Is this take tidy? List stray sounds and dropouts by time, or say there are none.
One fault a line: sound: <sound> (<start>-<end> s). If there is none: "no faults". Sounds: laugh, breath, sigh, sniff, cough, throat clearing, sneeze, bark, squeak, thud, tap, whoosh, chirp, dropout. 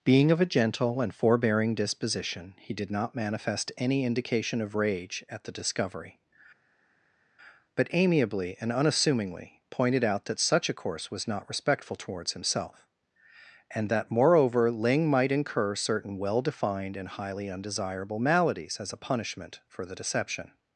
no faults